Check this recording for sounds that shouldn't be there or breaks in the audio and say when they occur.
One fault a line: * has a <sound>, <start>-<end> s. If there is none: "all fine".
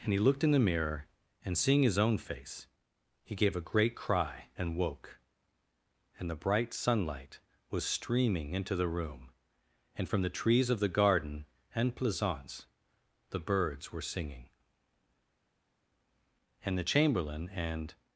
all fine